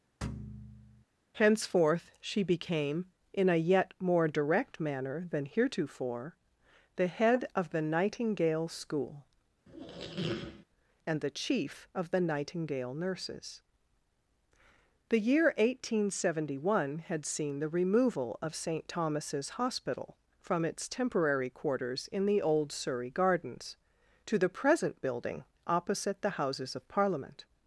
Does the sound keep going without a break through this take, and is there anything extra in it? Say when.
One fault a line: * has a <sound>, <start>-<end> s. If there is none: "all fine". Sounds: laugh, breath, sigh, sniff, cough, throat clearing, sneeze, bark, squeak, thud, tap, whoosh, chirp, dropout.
* has a thud, 0.2-1.0 s
* has a squeak, 9.7-10.7 s